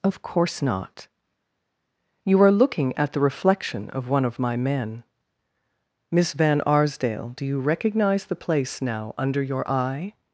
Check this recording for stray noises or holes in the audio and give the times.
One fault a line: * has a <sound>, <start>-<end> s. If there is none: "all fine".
all fine